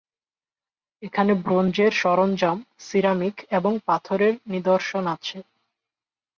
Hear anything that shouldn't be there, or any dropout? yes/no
no